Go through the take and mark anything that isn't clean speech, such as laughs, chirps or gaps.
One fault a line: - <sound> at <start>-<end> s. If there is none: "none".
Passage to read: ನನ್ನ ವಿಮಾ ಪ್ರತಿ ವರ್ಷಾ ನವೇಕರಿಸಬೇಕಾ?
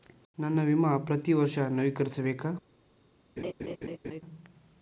- laugh at 3.4-4.2 s